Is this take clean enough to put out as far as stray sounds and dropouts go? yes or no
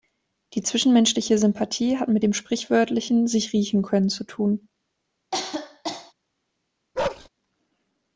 no